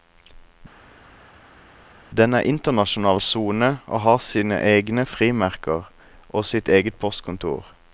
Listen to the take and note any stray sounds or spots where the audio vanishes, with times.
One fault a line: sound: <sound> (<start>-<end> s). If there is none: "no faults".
no faults